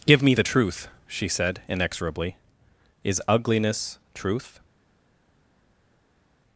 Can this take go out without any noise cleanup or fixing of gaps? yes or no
yes